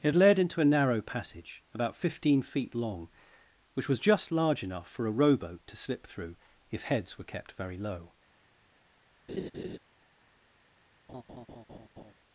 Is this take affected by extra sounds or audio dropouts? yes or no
yes